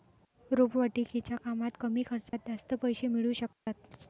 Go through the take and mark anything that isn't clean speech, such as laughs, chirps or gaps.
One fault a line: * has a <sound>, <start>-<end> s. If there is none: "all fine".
* has a dropout, 2.3-2.3 s
* has a dropout, 3.5-3.7 s